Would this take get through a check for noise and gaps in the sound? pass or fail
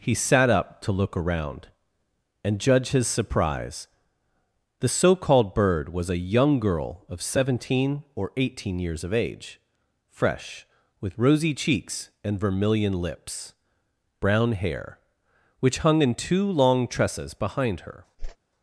fail